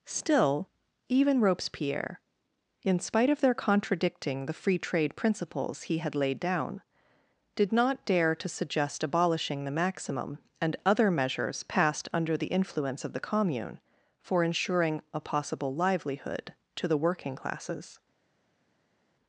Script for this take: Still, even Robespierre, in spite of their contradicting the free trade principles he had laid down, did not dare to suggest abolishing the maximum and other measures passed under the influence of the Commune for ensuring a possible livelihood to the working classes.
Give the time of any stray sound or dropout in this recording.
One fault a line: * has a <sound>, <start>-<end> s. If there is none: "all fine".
all fine